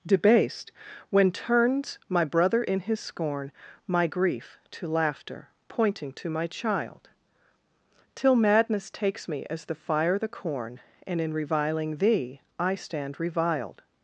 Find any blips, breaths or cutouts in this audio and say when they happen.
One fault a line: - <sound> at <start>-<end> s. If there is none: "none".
none